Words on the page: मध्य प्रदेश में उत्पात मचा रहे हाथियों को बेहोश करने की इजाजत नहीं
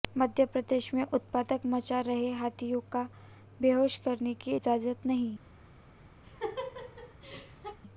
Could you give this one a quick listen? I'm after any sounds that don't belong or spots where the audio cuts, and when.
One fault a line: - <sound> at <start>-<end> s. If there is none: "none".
- laugh at 6.2-7.8 s